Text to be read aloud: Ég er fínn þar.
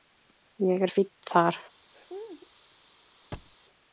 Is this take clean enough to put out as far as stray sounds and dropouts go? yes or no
no